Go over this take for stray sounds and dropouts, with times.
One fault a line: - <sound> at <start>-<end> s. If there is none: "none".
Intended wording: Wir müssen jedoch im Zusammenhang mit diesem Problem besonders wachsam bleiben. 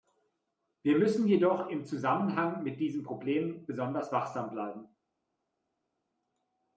none